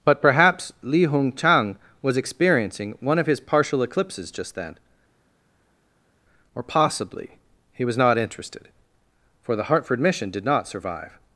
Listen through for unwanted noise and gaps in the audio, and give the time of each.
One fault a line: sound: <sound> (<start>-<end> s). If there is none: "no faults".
no faults